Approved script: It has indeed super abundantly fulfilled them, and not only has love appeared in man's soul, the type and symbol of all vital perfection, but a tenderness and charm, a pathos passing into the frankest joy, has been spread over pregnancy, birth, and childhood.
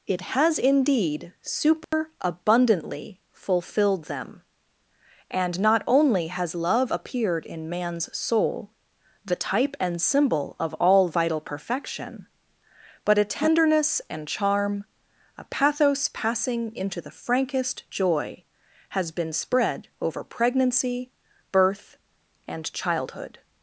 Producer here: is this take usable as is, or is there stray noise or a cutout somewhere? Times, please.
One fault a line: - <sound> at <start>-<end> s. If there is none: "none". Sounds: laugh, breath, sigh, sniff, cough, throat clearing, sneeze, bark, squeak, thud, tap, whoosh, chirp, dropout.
- dropout at 1.8-1.9 s